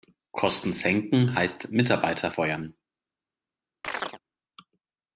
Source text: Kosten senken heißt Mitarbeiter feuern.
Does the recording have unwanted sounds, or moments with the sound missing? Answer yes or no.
yes